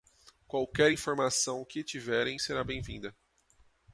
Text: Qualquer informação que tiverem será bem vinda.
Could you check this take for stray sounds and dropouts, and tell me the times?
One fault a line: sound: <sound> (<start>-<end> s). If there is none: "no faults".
no faults